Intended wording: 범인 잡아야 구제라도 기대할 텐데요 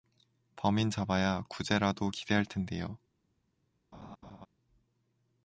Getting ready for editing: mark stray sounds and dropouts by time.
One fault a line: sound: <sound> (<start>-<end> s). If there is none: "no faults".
sound: laugh (3.9-4.5 s)